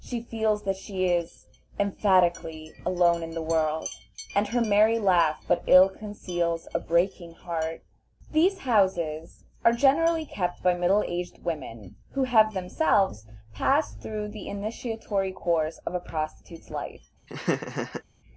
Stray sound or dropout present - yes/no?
yes